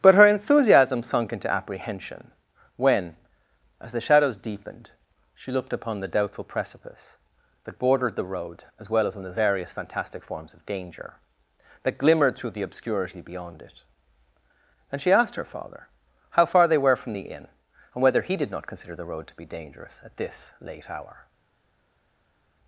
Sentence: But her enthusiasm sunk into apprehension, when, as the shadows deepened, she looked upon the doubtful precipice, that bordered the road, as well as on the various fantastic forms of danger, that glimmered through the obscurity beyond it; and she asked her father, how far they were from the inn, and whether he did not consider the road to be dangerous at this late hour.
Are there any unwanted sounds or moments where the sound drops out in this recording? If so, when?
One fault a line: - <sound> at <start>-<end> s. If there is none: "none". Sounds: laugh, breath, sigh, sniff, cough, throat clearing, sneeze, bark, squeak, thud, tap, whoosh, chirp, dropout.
none